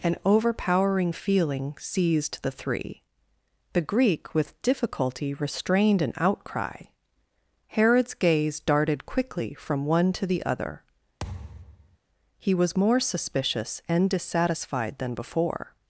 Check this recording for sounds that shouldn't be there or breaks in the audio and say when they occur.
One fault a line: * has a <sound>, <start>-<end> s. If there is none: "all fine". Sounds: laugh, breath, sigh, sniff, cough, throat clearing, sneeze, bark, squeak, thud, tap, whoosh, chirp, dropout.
* has a thud, 11.2-12.0 s